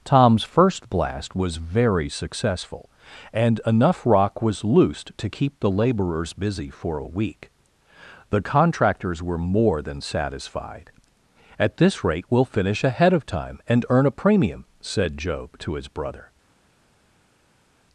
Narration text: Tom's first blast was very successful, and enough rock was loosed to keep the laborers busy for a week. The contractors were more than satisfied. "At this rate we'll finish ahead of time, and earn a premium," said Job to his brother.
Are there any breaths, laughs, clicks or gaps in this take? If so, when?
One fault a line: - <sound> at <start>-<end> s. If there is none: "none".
none